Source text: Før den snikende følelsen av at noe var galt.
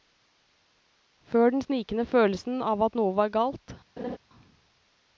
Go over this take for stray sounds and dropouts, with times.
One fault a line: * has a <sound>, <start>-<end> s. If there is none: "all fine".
* has a laugh, 4.0-4.2 s